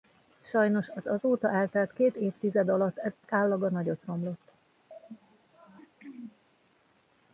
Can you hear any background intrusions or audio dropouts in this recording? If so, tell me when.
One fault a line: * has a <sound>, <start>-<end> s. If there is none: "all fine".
* has a dropout, 3.1-3.2 s
* has a throat clearing, 4.9-6.4 s